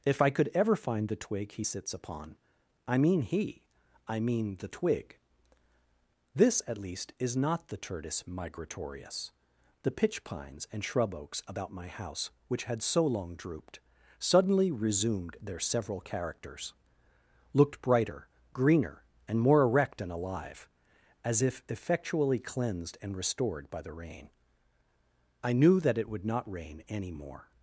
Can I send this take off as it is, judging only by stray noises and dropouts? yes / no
yes